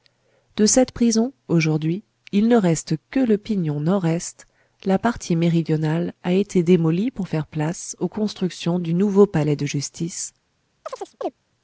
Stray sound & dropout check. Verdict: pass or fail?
fail